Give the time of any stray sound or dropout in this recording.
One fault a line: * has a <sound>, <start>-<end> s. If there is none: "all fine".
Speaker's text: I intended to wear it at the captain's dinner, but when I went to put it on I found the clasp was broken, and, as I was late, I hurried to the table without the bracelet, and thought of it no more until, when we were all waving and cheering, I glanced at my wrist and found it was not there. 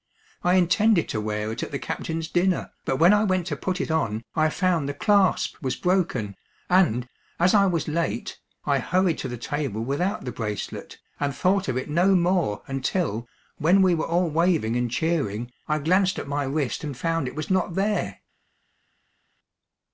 all fine